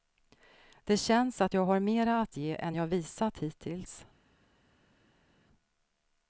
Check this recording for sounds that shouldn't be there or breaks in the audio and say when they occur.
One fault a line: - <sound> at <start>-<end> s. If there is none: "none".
none